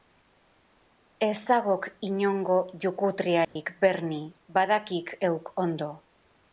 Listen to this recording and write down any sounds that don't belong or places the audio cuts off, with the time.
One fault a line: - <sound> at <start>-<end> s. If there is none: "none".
- dropout at 3.4-3.6 s